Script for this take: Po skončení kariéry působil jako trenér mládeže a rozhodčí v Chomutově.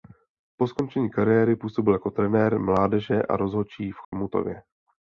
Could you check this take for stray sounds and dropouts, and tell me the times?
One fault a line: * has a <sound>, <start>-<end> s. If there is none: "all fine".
* has a dropout, 4.0-4.1 s